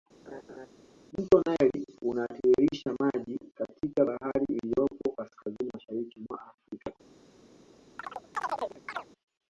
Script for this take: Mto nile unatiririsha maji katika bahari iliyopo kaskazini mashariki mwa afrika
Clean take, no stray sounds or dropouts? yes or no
no